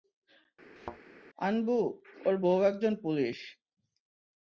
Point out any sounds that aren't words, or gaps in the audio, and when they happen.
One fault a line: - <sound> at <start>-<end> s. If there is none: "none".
- thud at 0.8-1.0 s